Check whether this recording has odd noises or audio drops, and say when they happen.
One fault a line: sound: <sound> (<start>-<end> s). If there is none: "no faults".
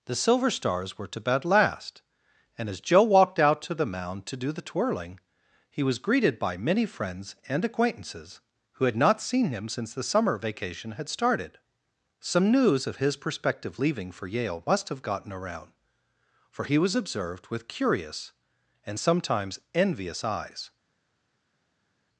no faults